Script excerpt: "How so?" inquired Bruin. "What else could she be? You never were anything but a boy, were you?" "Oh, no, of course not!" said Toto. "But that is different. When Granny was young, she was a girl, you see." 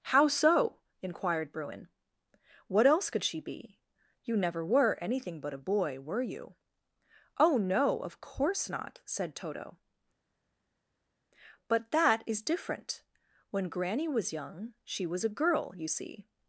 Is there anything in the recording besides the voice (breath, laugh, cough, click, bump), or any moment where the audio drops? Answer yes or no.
no